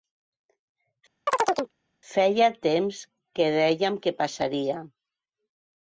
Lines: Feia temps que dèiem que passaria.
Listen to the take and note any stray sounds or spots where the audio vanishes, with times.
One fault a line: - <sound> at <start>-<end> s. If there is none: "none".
- chirp at 1.3-1.7 s